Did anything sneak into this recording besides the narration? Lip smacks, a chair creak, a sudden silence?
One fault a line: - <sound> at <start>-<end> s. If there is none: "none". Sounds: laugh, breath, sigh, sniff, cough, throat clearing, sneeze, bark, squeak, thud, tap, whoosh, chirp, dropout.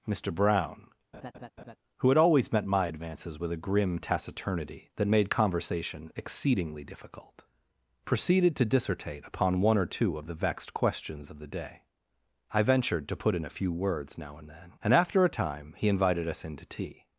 - laugh at 1.1-1.8 s